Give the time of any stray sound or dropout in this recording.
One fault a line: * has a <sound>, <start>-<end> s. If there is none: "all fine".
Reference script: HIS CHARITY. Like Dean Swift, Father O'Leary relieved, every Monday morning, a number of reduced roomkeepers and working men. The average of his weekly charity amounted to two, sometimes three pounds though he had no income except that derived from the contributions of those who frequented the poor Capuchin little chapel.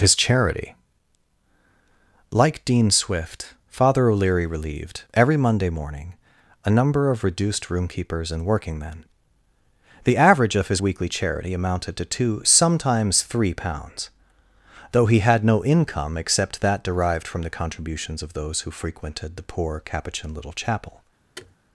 * has a thud, 21.4-21.6 s